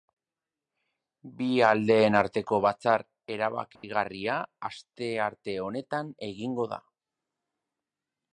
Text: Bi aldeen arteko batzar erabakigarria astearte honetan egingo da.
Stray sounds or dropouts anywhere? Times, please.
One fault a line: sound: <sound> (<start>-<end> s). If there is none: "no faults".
sound: dropout (3.8-3.8 s)